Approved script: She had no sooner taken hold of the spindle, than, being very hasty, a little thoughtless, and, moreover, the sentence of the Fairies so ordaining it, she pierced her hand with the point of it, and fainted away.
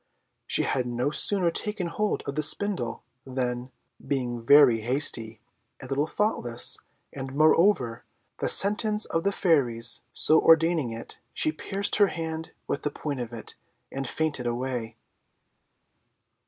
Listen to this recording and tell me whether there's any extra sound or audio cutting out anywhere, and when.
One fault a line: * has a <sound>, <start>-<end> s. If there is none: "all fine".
all fine